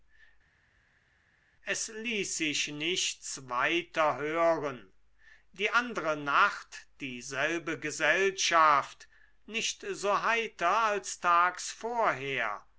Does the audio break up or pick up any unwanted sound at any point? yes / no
no